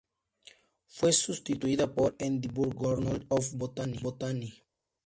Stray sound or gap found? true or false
false